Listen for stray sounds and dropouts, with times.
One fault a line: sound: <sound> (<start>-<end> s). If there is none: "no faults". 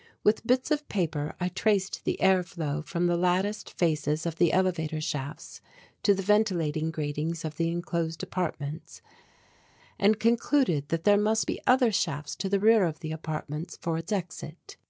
no faults